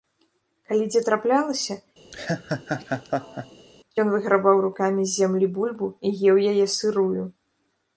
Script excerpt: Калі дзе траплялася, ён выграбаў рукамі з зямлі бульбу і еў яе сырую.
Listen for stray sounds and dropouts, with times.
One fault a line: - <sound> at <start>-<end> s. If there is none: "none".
- laugh at 2.1-3.7 s